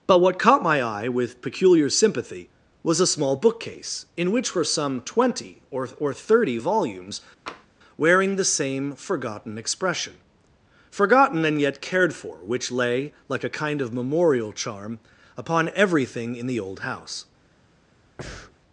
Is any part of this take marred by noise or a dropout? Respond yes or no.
yes